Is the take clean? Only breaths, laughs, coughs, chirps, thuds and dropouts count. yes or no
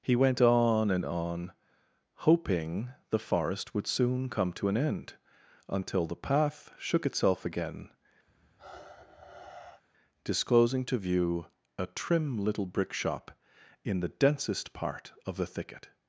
no